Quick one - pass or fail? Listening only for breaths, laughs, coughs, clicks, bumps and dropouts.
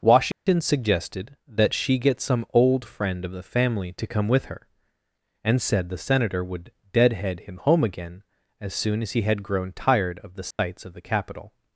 fail